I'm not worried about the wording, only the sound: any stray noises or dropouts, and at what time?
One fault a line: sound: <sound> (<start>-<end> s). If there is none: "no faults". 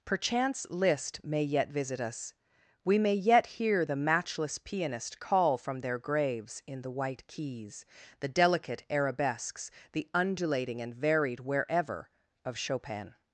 no faults